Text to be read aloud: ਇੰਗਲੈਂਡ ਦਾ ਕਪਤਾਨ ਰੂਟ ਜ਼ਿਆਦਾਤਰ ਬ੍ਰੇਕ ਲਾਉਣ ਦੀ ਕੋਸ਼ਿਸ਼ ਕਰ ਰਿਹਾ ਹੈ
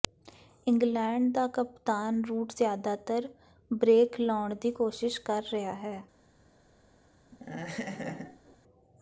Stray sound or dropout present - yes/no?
yes